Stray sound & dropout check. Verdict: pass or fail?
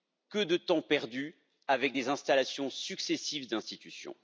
pass